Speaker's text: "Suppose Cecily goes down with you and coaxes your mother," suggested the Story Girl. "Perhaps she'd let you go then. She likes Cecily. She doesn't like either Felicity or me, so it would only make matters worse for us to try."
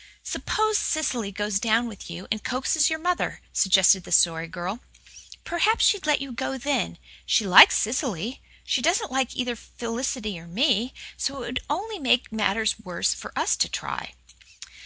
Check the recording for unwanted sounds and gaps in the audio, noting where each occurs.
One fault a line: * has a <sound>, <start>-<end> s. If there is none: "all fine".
all fine